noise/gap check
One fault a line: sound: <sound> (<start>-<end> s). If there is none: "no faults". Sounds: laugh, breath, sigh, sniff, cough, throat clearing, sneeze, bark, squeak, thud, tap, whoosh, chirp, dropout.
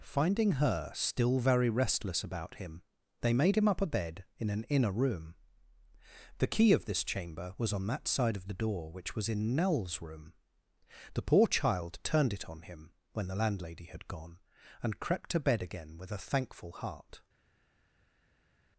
no faults